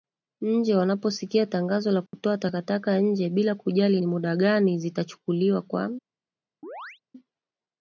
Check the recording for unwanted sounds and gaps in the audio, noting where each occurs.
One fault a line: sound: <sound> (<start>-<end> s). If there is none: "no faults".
sound: dropout (2.1-2.1 s)
sound: chirp (6.6-7.0 s)